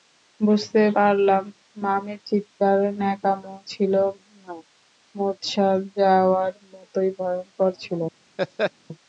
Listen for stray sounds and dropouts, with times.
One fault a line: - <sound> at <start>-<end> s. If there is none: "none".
- laugh at 8.4-8.7 s